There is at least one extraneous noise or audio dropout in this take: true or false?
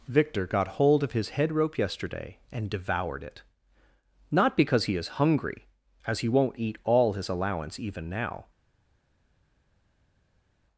false